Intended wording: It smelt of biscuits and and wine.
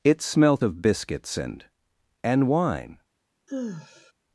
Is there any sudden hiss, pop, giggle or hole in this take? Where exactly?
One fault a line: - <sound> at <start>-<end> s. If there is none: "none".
- sigh at 3.5-4.1 s